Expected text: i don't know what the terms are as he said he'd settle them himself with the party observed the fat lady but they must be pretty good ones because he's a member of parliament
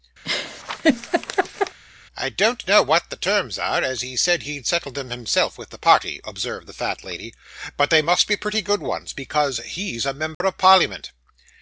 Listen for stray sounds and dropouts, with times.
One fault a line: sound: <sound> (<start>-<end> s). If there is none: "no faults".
sound: laugh (0.2-1.8 s)
sound: dropout (10.3-10.4 s)